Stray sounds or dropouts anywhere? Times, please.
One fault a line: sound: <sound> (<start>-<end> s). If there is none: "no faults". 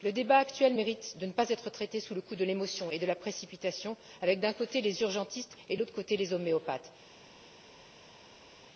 no faults